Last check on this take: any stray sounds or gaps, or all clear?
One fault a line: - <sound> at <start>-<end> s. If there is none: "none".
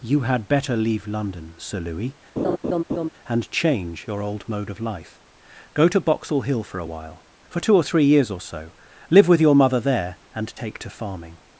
- laugh at 2.4-3.1 s